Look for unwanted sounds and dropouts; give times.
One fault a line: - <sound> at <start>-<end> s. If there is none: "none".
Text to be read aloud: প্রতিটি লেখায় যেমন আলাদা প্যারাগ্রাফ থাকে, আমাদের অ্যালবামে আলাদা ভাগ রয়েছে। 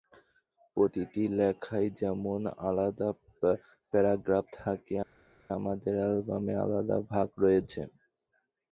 none